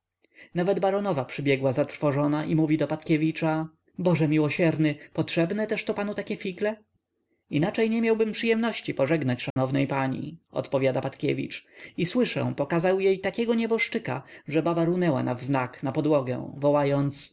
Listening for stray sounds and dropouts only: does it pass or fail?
fail